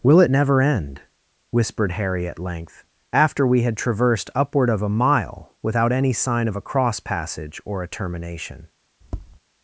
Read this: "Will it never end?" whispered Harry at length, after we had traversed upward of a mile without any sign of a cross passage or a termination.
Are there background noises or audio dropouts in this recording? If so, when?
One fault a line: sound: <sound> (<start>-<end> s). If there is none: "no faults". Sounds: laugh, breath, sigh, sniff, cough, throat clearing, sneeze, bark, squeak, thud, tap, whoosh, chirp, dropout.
sound: tap (9.0-9.4 s)